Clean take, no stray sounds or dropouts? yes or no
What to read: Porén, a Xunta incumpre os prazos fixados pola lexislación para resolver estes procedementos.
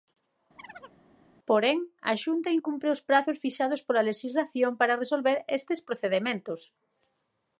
no